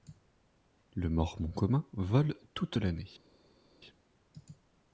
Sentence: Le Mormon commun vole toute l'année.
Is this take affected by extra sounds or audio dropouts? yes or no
no